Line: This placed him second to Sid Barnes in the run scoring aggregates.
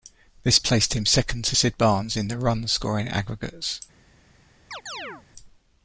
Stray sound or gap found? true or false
true